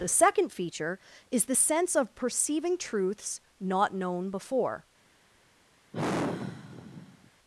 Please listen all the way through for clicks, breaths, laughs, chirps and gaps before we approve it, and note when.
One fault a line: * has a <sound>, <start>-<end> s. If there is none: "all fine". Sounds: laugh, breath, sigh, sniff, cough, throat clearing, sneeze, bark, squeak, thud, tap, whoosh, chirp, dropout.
* has a sigh, 5.9-7.3 s